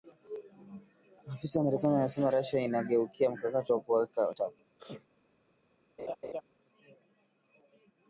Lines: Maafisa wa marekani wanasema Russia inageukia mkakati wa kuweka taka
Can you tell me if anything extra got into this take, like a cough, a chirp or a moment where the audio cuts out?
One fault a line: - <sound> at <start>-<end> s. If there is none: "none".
- sneeze at 4.8-5.1 s
- laugh at 6.0-6.4 s